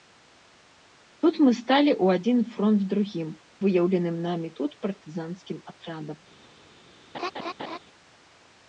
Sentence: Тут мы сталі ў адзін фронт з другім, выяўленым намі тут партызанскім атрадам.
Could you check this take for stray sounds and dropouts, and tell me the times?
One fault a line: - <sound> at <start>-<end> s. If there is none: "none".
- laugh at 7.1-7.8 s